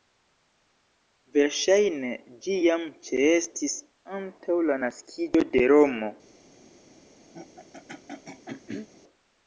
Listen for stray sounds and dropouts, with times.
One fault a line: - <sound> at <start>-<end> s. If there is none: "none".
- throat clearing at 7.3-8.9 s